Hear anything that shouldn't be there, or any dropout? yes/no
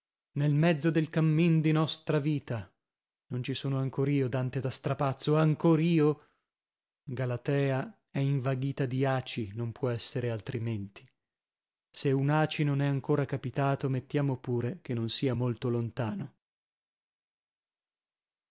no